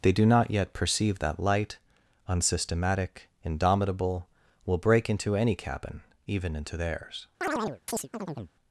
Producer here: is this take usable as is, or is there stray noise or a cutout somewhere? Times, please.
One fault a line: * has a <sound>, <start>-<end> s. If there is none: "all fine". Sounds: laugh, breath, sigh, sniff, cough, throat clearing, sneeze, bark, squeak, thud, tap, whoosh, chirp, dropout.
* has a chirp, 7.4-8.5 s